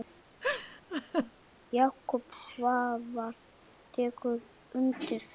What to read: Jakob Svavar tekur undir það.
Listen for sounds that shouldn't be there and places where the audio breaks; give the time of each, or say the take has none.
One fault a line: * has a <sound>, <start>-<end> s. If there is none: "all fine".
* has a laugh, 0.4-1.3 s